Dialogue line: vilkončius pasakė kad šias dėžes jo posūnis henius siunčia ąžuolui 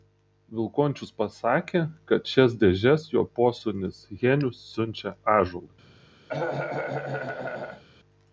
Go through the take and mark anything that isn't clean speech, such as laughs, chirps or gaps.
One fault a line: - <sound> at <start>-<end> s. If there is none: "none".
- cough at 6.3-7.8 s